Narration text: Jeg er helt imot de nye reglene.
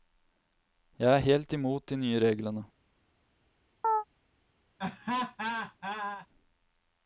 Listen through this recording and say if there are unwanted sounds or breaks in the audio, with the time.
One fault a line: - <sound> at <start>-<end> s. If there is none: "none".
- chirp at 3.8-4.0 s
- laugh at 4.8-6.3 s